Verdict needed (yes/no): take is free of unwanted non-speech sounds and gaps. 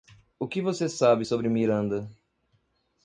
yes